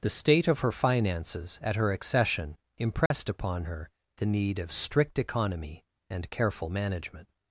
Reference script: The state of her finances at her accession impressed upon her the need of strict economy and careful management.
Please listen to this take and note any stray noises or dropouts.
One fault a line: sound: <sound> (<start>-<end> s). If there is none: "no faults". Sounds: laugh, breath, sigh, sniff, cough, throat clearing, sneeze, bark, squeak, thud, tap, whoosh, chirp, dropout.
sound: dropout (3.1-3.1 s)